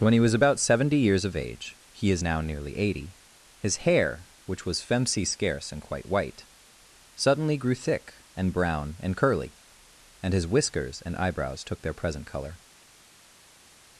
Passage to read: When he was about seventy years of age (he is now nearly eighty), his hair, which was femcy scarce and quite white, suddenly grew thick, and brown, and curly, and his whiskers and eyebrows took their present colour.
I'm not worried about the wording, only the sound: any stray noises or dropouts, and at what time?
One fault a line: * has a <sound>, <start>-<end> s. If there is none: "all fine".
all fine